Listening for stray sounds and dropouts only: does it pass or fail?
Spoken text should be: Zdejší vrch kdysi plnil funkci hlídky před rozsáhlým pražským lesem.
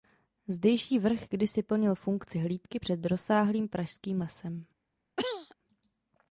fail